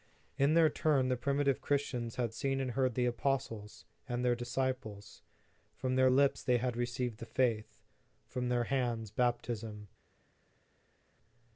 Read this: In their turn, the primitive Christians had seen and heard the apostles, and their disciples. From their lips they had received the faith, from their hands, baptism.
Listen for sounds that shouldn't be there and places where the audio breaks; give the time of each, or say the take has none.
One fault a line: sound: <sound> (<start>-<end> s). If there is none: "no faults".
no faults